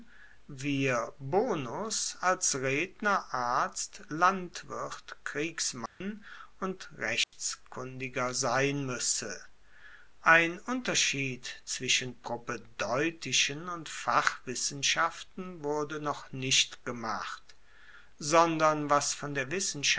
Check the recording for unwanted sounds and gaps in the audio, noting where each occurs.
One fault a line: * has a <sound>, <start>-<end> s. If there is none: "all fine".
* has a dropout, 5.9-6.0 s
* has a dropout, 7.2-7.3 s